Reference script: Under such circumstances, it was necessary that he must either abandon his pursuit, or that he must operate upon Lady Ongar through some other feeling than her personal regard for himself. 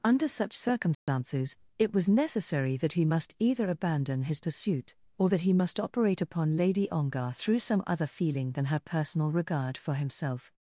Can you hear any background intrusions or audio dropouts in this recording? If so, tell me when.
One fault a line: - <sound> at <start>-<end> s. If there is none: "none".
- dropout at 0.9-1.1 s